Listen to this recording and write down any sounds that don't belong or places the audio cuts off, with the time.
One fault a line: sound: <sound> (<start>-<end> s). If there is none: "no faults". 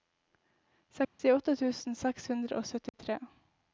sound: dropout (1.0-1.2 s)
sound: dropout (2.9-2.9 s)